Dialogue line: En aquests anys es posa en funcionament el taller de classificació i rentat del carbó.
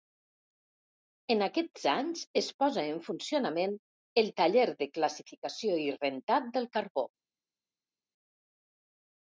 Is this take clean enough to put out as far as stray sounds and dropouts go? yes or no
yes